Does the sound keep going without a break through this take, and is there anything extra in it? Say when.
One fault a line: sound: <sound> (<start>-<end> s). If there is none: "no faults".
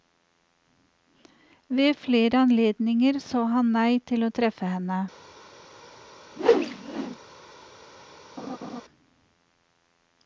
sound: whoosh (6.4-7.2 s)
sound: laugh (8.4-8.8 s)